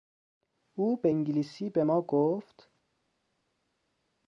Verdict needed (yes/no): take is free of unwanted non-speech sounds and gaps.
yes